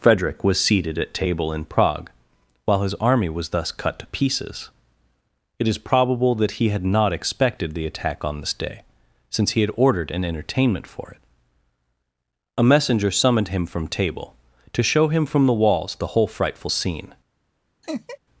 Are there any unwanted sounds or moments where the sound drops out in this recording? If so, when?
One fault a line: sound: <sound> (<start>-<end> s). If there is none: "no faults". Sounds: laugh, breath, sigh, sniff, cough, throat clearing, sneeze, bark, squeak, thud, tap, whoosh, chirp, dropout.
sound: laugh (17.8-18.2 s)